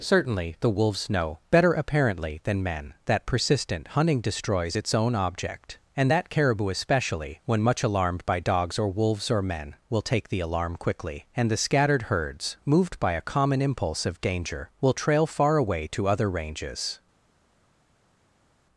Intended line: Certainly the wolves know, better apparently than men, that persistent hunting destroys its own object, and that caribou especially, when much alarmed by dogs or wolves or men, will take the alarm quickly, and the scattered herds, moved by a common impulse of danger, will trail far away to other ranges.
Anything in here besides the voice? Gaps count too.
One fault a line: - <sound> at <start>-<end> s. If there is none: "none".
none